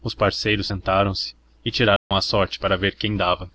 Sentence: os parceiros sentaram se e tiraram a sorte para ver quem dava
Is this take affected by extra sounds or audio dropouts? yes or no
yes